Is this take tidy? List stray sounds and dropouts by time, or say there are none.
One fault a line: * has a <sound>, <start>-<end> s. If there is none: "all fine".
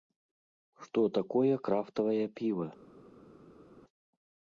all fine